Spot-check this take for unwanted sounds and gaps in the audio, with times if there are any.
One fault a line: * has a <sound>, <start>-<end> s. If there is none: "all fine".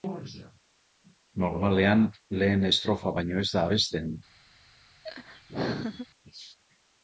* has a laugh, 5.0-6.1 s